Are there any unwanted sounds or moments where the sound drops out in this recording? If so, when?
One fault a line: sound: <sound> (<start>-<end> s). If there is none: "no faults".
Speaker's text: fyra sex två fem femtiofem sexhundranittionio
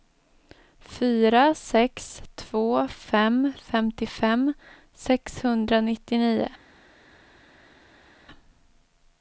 no faults